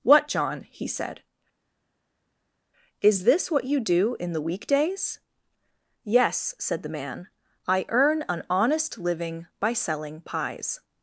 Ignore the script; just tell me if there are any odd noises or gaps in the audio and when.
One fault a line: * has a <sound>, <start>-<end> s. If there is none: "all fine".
all fine